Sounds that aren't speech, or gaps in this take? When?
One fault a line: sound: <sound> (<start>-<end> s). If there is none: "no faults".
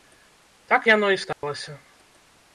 sound: dropout (1.3-1.4 s)